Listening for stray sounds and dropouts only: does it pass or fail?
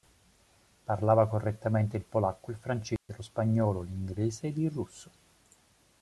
fail